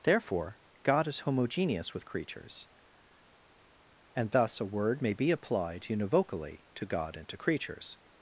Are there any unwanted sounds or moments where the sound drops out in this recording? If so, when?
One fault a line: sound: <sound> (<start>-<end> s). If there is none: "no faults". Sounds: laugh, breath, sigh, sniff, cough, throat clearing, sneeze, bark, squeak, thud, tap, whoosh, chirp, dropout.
no faults